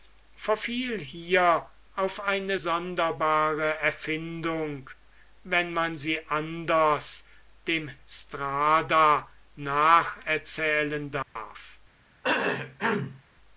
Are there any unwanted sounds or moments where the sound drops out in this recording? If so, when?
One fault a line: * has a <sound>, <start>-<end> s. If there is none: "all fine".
* has a dropout, 11.2-11.4 s
* has a cough, 12.2-13.2 s